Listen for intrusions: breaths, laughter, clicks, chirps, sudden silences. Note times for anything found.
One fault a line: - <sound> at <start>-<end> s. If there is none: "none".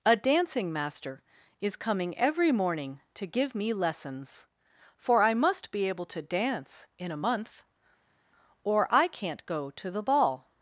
none